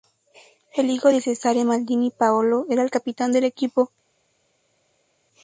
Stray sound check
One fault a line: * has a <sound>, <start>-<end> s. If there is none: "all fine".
all fine